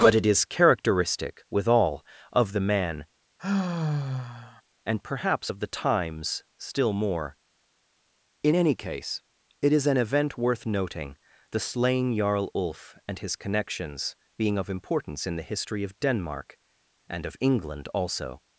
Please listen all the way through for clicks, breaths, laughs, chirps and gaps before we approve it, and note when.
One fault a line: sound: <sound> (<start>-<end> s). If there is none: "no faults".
sound: sigh (3.4-4.6 s)